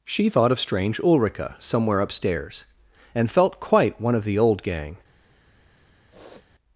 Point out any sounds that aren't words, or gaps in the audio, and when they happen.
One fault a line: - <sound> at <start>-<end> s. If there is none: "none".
- sniff at 6.1-6.5 s